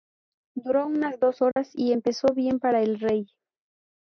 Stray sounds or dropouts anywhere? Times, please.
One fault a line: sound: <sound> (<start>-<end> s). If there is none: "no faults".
sound: dropout (1.5-1.6 s)